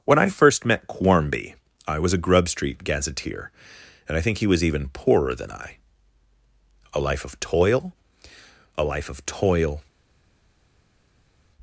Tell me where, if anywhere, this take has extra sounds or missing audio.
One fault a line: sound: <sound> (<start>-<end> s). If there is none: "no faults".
no faults